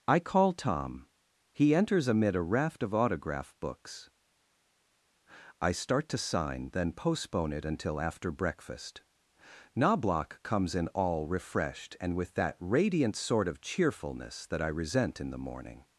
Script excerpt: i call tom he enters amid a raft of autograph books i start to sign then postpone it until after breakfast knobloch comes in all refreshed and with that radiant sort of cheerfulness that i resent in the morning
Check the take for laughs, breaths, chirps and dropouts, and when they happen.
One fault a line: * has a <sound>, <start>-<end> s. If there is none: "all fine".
all fine